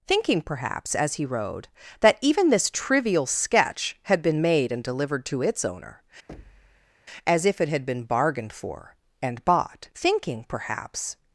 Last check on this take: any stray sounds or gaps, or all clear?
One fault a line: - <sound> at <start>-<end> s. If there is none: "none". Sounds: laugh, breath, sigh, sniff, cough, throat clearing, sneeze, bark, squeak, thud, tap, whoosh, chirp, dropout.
- thud at 6.3-6.9 s